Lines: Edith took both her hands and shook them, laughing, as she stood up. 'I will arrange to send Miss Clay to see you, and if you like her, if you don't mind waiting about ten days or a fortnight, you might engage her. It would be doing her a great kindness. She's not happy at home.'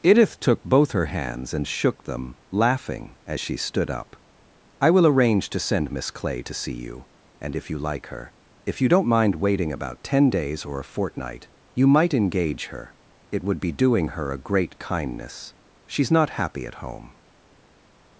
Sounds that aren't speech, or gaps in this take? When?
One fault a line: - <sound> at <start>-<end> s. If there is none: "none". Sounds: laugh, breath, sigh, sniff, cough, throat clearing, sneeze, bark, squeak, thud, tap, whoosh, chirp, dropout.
none